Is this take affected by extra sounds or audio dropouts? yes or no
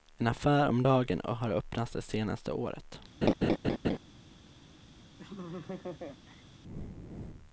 yes